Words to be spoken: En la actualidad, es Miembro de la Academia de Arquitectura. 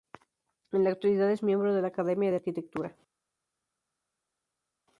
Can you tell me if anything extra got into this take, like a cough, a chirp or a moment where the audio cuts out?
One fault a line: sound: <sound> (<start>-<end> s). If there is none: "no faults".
no faults